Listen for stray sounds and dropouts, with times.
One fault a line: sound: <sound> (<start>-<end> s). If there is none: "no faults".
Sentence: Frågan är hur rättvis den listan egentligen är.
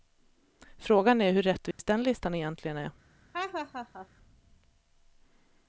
sound: dropout (1.7-1.8 s)
sound: laugh (3.3-4.1 s)